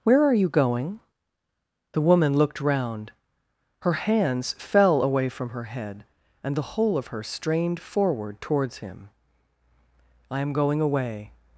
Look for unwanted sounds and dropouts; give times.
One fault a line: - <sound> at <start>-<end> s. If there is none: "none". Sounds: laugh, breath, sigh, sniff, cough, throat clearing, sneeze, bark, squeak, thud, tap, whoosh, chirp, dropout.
none